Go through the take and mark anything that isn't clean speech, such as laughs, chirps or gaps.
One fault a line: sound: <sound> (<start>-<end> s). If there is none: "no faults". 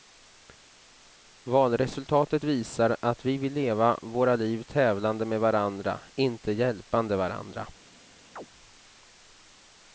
sound: chirp (8.4-8.5 s)